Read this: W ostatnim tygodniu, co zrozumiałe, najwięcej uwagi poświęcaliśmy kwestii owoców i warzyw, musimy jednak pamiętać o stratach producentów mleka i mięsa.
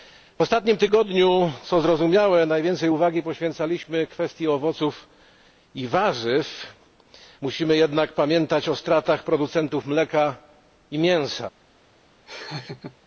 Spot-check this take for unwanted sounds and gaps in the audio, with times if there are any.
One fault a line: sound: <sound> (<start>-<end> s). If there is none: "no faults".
sound: laugh (12.3-13.0 s)